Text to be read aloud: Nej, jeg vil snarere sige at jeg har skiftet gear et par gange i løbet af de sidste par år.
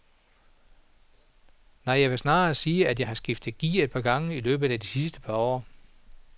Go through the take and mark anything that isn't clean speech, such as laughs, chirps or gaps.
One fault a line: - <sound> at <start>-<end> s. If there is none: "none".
none